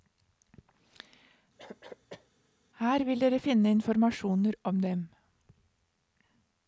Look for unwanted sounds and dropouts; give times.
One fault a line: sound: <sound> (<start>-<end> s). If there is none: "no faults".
sound: cough (1.6-2.3 s)